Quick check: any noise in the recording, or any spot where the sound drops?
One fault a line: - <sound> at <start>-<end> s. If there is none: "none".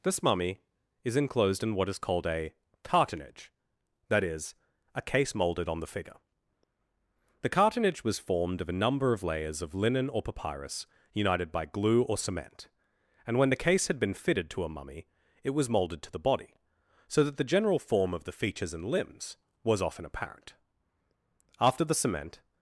none